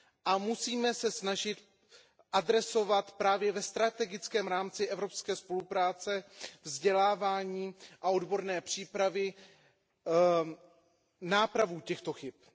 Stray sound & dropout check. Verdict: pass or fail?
pass